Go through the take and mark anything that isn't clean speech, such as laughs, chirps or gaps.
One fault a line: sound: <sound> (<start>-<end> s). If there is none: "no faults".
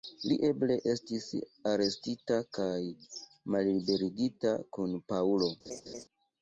sound: laugh (5.6-6.1 s)